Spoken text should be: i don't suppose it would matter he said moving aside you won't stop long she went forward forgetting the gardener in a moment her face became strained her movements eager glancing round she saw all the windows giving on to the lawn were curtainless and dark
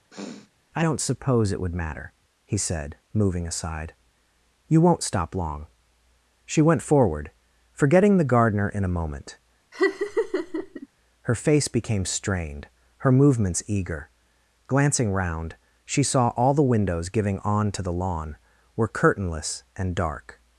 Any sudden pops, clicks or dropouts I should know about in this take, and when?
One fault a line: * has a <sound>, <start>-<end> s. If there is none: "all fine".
* has a sniff, 0.1-0.5 s
* has a laugh, 9.7-10.9 s